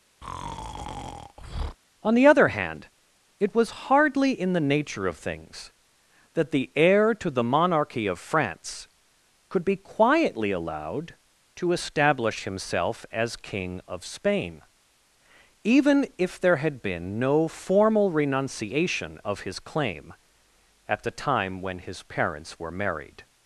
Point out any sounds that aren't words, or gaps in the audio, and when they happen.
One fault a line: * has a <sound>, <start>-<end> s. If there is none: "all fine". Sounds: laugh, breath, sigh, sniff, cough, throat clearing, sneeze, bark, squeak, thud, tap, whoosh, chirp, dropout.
* has a breath, 0.2-1.8 s